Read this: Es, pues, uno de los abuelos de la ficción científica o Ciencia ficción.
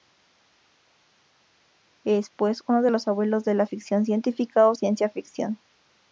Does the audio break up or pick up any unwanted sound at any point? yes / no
no